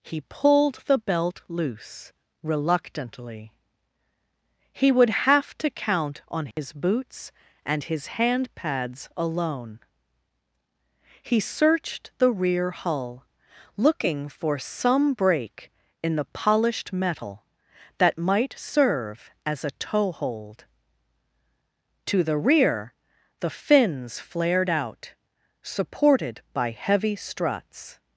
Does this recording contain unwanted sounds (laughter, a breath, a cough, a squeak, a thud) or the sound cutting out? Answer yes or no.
yes